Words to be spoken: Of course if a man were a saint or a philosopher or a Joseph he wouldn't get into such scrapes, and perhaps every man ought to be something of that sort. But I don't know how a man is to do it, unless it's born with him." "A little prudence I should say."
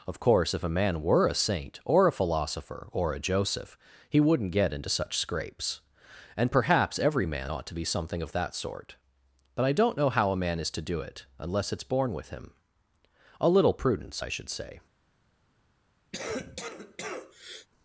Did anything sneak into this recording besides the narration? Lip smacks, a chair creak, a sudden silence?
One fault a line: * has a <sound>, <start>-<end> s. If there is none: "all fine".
* has a cough, 16.1-17.7 s